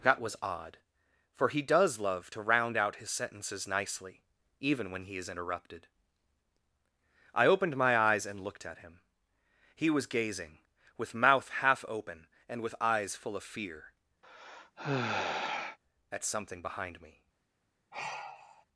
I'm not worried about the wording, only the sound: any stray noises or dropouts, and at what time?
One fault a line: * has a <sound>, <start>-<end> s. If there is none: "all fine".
* has a sigh, 14.2-15.8 s
* has a sigh, 17.9-18.7 s